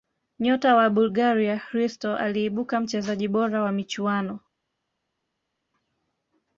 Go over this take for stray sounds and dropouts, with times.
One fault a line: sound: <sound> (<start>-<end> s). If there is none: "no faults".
no faults